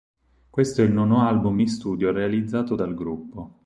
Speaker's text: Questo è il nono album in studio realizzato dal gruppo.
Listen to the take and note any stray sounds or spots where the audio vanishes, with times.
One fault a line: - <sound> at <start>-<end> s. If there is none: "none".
none